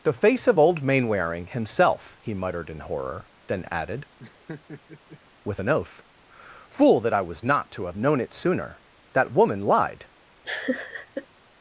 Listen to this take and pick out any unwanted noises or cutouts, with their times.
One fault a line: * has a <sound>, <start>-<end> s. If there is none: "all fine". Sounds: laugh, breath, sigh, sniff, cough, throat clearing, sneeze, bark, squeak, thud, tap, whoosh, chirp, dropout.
* has a laugh, 4.2-5.2 s
* has a laugh, 10.4-11.3 s